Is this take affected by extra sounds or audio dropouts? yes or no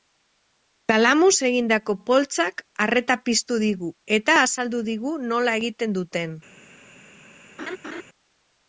yes